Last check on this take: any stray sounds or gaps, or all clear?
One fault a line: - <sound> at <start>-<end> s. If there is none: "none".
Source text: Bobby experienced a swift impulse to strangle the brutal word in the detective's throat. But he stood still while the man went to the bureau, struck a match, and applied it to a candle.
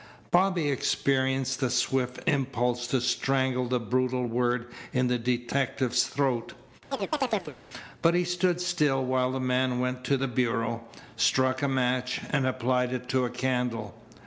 - chirp at 6.9-7.6 s